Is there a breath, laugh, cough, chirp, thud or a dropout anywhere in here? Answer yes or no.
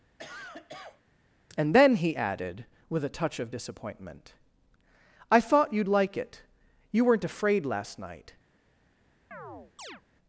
yes